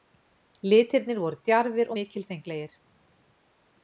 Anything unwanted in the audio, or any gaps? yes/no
no